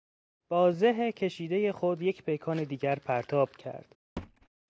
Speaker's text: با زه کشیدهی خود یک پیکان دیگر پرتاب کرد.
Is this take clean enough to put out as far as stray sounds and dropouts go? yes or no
no